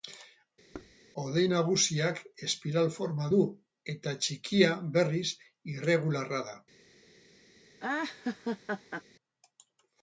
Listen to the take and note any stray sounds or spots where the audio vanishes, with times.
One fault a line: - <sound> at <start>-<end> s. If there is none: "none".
- thud at 0.7-1.0 s
- laugh at 7.8-9.0 s